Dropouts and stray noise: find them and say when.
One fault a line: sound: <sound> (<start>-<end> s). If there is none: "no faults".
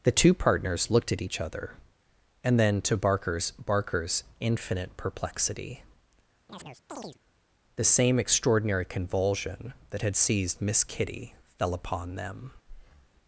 sound: chirp (6.5-7.2 s)
sound: breath (12.6-13.1 s)